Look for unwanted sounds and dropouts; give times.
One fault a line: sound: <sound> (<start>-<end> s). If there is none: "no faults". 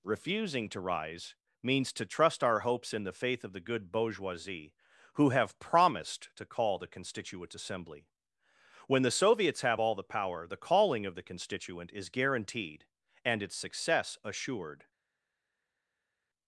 no faults